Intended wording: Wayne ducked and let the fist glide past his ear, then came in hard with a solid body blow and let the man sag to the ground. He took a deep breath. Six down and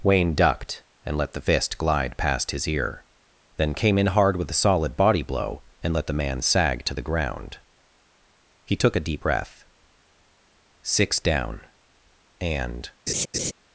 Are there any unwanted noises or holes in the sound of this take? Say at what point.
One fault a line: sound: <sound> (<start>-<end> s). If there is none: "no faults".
sound: laugh (13.1-13.5 s)